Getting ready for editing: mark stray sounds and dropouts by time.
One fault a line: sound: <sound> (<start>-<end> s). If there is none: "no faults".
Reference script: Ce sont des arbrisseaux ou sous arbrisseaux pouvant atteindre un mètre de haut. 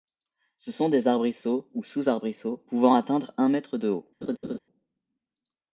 sound: laugh (4.2-4.6 s)